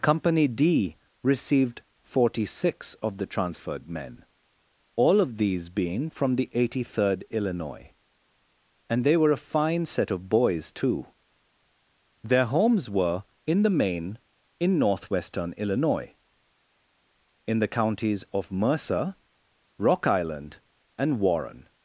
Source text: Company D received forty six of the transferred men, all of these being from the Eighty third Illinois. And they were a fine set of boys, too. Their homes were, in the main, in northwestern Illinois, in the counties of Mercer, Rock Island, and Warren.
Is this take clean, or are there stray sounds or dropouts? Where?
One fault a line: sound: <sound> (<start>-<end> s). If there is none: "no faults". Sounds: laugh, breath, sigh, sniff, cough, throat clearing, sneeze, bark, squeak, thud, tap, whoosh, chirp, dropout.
no faults